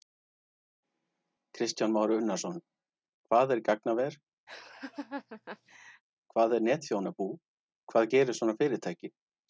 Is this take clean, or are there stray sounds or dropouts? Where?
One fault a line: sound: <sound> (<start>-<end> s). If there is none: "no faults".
sound: laugh (4.5-6.0 s)